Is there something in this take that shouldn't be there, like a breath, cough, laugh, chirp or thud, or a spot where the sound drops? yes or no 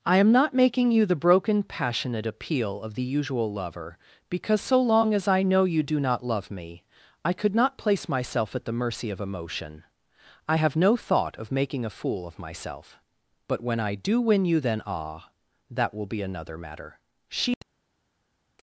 no